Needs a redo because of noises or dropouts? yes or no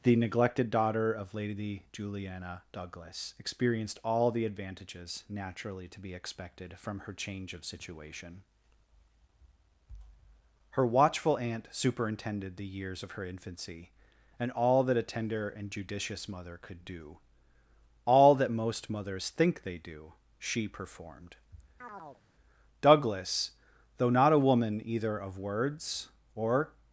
yes